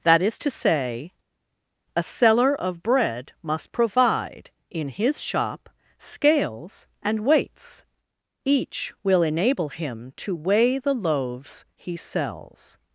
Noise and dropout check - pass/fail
pass